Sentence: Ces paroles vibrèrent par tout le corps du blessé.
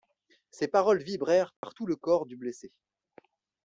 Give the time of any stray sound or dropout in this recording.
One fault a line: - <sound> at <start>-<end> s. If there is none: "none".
- dropout at 1.6-1.6 s